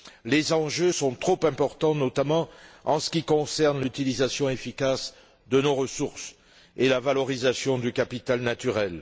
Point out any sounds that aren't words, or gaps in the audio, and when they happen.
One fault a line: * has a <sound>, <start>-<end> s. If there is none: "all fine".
all fine